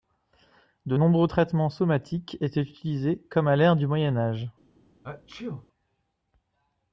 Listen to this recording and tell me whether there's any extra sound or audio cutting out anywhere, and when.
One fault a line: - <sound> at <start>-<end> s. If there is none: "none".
- sneeze at 5.0-5.7 s